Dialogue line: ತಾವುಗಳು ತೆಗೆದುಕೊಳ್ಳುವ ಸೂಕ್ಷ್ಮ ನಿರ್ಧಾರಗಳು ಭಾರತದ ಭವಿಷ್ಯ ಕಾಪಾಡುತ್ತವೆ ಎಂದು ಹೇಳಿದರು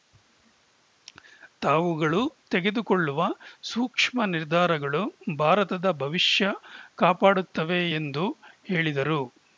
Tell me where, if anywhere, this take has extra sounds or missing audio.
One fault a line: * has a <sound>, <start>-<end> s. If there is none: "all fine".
all fine